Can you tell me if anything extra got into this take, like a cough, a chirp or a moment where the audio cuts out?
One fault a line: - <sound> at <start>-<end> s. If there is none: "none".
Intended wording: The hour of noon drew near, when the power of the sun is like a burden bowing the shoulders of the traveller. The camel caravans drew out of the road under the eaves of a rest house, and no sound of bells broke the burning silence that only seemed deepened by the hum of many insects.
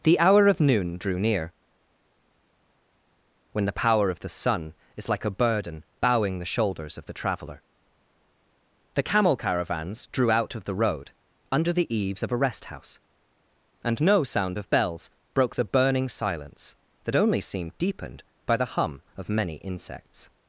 none